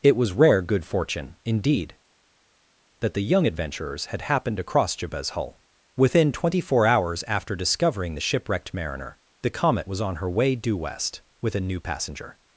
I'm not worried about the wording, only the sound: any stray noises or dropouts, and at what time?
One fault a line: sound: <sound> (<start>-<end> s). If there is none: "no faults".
no faults